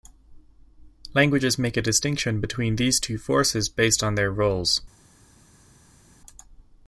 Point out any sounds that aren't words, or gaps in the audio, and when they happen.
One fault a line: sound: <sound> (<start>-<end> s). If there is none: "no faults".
no faults